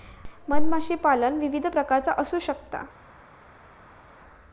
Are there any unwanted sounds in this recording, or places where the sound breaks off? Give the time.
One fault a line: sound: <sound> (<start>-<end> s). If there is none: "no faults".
no faults